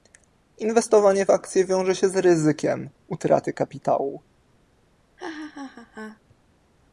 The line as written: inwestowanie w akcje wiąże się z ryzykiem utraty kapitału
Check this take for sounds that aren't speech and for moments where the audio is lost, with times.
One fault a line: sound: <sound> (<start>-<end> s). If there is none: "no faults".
sound: laugh (5.2-6.2 s)